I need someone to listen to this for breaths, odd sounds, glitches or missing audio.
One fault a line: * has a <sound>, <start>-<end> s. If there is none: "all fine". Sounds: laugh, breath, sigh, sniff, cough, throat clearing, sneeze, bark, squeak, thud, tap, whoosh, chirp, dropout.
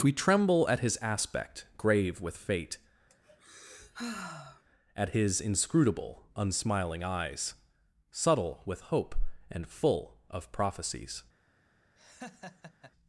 * has a sigh, 3.1-4.6 s
* has a laugh, 12.0-12.9 s